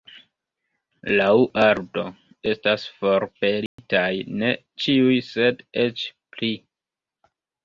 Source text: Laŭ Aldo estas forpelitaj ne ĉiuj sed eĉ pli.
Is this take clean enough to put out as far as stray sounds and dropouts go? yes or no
no